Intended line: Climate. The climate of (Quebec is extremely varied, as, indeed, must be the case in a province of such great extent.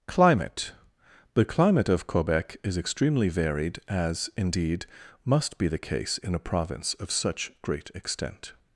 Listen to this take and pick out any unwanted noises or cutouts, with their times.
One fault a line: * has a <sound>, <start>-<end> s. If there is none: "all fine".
all fine